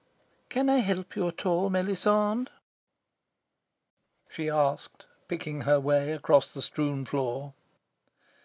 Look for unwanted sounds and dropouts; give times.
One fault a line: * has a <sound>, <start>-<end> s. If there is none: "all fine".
all fine